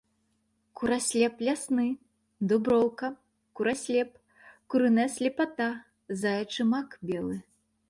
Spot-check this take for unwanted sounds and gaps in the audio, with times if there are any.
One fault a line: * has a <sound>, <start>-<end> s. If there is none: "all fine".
all fine